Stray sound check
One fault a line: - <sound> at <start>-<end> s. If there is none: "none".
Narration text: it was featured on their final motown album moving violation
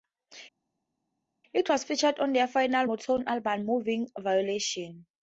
none